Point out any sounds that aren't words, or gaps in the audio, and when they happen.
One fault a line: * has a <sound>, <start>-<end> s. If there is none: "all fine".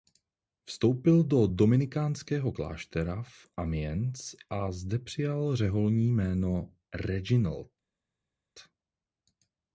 all fine